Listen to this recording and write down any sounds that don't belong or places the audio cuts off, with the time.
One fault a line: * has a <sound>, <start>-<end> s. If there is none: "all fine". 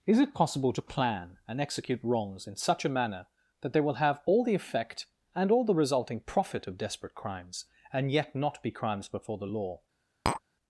* has a tap, 10.3-10.4 s